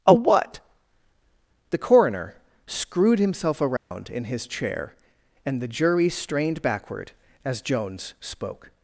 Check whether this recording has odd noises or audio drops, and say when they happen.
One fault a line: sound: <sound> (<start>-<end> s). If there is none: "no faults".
sound: dropout (3.8-3.9 s)